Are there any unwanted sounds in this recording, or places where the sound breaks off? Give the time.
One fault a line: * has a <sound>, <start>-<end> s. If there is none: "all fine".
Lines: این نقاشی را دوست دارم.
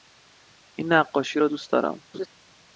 * has a laugh, 2.1-2.3 s